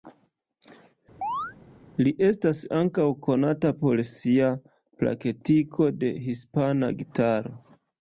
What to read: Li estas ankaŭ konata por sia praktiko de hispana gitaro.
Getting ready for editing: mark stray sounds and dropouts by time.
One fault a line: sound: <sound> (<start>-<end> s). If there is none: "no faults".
sound: chirp (1.2-1.5 s)